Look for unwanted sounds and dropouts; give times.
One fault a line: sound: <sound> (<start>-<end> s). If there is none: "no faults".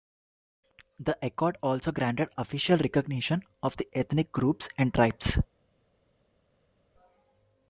no faults